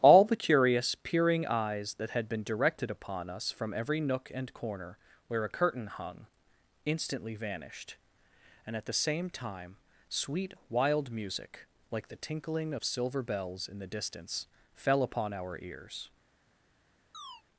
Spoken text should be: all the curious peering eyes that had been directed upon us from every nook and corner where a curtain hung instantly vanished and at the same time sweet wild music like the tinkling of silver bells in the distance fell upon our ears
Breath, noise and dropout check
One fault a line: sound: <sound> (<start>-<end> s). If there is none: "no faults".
sound: chirp (17.1-17.4 s)